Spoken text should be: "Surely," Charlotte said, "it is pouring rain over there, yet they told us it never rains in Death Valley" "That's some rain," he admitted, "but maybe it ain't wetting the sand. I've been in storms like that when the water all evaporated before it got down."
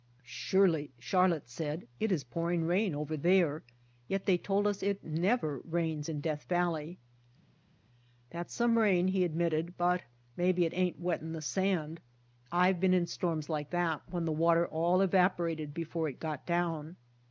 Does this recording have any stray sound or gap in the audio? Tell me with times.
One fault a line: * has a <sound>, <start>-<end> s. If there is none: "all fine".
all fine